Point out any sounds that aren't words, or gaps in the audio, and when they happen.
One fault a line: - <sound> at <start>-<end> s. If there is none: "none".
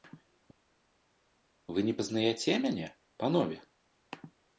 none